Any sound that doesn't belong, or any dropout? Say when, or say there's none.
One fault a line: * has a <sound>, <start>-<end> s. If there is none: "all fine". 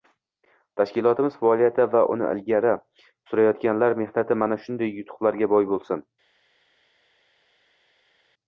all fine